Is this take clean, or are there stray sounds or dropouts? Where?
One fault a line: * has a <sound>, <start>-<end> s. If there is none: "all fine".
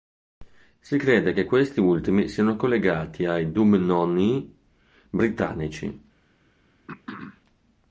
* has a throat clearing, 6.9-7.4 s